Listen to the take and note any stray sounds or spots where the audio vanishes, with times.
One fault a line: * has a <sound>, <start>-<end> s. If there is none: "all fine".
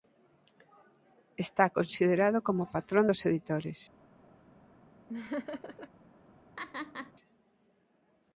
* has a laugh, 5.1-5.9 s
* has a laugh, 6.6-7.1 s